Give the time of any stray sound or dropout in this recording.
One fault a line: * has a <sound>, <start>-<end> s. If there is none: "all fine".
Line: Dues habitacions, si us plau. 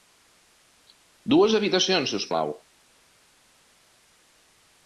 all fine